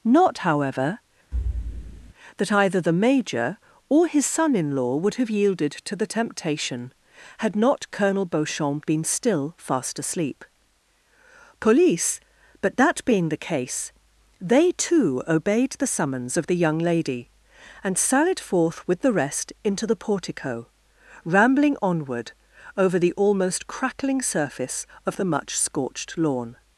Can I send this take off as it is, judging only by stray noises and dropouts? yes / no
no